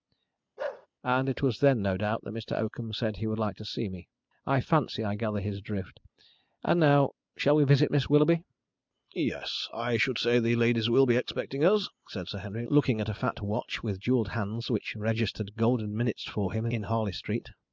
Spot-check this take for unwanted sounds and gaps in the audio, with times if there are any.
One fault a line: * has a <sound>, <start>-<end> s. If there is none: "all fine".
* has a bark, 0.6-0.9 s